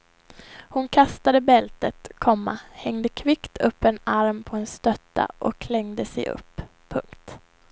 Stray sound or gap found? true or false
false